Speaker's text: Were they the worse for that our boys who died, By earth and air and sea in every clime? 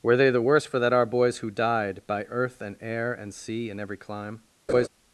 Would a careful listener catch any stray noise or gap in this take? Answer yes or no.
yes